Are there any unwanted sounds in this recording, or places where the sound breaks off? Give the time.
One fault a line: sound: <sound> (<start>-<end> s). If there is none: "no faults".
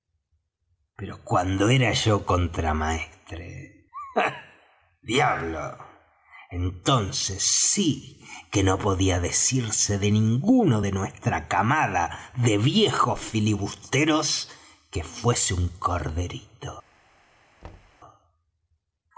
sound: thud (17.6-18.0 s)